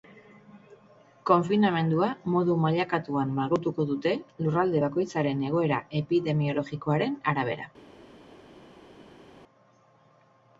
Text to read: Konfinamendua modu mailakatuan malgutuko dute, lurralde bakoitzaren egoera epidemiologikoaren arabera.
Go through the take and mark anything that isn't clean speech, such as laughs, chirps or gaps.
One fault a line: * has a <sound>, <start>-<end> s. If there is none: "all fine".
all fine